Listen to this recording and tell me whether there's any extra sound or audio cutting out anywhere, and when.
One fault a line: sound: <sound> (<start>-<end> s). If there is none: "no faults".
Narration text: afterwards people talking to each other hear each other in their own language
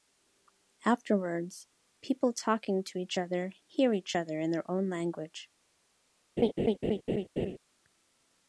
sound: laugh (6.4-7.6 s)